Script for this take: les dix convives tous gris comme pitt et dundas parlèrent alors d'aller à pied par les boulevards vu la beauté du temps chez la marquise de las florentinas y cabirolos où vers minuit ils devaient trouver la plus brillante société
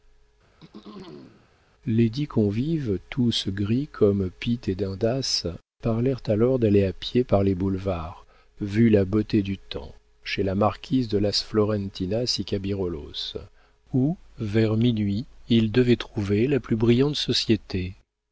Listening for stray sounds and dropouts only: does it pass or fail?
fail